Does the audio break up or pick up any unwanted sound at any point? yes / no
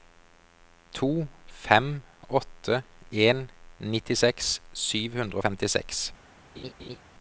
yes